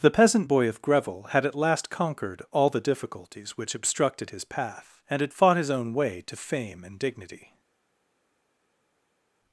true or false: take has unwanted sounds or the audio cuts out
false